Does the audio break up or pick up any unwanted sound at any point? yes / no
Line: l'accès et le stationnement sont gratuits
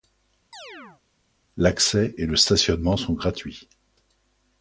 yes